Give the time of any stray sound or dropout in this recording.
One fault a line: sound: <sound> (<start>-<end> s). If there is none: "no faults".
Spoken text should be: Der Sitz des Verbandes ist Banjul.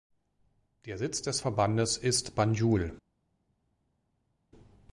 no faults